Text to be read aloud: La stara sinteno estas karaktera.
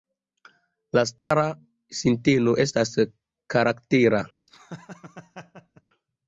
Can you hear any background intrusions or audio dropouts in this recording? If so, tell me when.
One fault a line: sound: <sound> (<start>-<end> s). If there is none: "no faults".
sound: dropout (1.2-1.3 s)
sound: laugh (4.5-5.8 s)